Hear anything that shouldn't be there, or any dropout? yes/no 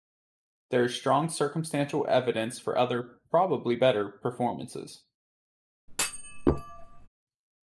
yes